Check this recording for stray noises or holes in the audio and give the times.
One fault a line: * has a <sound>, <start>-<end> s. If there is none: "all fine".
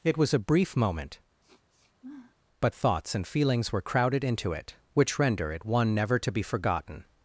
* has a sniff, 1.4-2.4 s